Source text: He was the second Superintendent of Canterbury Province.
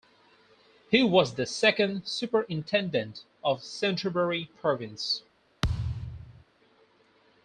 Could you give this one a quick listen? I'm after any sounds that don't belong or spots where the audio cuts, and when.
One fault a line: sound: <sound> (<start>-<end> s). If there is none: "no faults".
sound: thud (5.6-6.4 s)